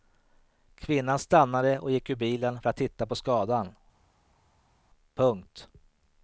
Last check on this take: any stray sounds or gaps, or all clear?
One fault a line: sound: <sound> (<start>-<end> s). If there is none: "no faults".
no faults